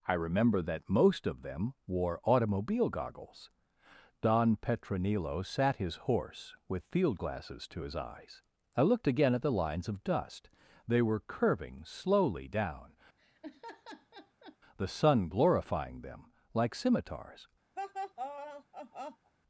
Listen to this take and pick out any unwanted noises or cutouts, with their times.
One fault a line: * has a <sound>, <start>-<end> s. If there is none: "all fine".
* has a laugh, 13.2-14.6 s
* has a laugh, 17.8-19.3 s